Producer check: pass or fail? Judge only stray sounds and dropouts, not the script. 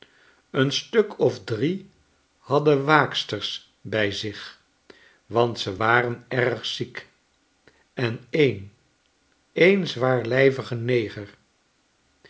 pass